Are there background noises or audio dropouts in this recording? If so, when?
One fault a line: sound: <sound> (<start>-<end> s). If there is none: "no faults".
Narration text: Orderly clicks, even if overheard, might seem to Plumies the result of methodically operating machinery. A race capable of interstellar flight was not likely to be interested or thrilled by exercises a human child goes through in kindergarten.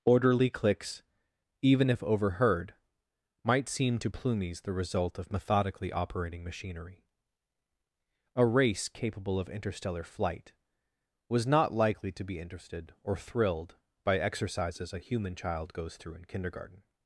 no faults